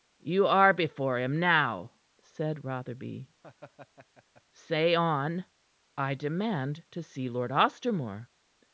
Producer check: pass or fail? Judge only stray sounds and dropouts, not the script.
fail